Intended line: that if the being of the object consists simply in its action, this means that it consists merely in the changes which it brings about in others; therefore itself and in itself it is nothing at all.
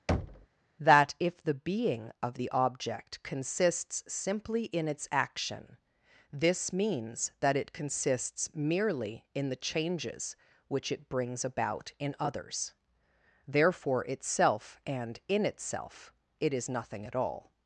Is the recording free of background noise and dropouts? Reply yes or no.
no